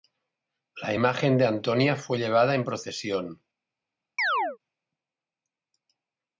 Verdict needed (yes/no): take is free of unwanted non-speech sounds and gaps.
no